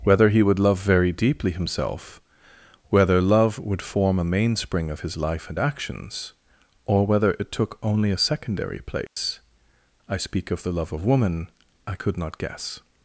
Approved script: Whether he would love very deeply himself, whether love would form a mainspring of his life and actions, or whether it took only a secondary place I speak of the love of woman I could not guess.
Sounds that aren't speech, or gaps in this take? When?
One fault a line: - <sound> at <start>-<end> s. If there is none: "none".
- dropout at 9.1-9.2 s